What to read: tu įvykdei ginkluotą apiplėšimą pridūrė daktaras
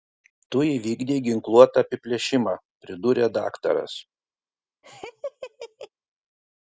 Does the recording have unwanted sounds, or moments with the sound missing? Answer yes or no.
yes